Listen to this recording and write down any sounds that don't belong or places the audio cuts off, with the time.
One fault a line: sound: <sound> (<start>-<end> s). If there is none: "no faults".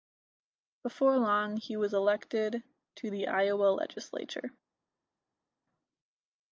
no faults